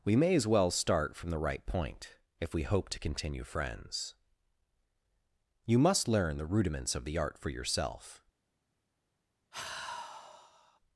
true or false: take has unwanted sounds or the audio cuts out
true